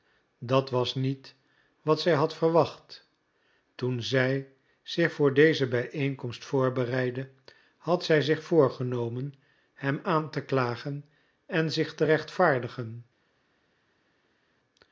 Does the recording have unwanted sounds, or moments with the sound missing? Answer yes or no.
no